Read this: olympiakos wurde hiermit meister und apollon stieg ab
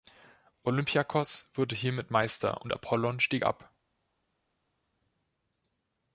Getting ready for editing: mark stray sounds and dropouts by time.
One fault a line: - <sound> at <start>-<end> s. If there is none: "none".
none